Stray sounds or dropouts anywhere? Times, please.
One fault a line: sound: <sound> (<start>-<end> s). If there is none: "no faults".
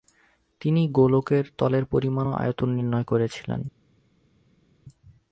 no faults